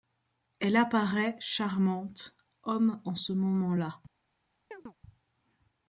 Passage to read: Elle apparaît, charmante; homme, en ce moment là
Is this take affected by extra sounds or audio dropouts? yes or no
yes